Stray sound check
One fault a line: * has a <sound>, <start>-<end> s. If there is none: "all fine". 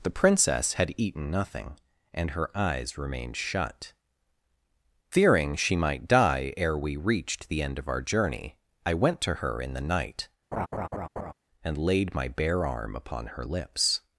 * has a laugh, 10.5-11.3 s